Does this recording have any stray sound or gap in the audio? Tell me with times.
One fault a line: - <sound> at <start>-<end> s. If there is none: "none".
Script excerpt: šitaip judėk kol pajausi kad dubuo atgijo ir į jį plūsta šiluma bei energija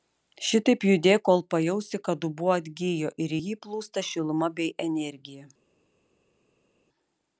none